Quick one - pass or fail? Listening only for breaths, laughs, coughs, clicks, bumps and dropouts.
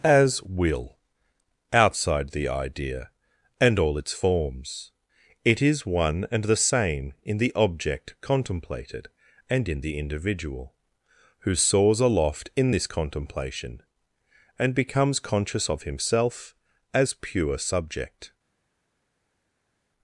pass